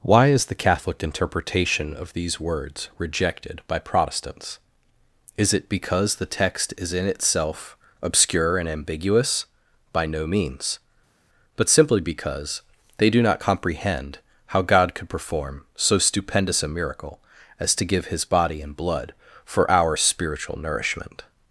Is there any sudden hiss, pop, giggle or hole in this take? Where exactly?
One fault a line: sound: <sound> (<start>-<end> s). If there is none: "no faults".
no faults